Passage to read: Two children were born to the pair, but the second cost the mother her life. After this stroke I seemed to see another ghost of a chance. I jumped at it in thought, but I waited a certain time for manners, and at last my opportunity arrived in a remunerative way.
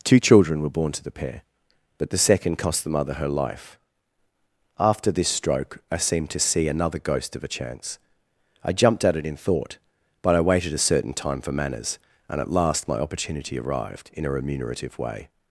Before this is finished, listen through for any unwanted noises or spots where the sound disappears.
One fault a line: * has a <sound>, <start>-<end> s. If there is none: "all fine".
all fine